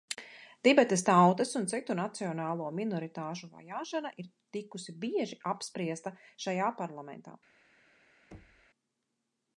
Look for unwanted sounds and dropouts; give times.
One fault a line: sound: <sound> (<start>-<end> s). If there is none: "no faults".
sound: thud (8.3-8.7 s)